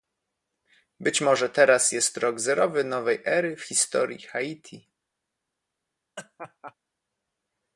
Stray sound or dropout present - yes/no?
yes